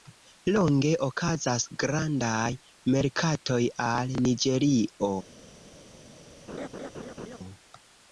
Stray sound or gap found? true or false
true